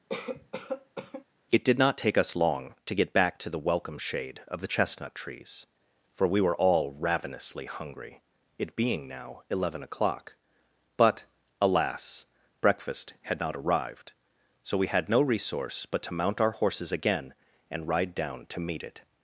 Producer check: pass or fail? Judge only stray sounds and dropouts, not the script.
fail